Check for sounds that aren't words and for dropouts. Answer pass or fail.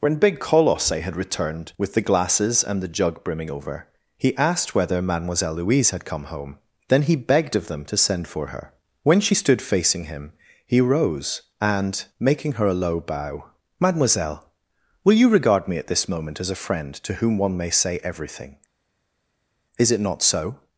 pass